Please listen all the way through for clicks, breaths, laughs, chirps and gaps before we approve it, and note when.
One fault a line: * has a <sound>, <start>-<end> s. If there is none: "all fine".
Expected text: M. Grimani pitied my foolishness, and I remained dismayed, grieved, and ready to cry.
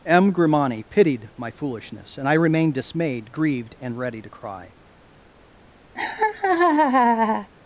* has a laugh, 5.9-7.5 s